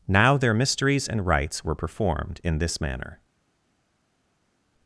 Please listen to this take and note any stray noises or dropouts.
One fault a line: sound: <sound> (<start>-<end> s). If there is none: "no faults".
no faults